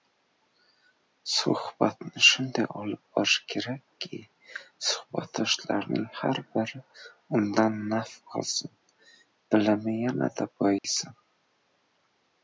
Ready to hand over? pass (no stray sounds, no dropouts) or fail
fail